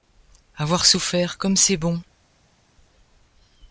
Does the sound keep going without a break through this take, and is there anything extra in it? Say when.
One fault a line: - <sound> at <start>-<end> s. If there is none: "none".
none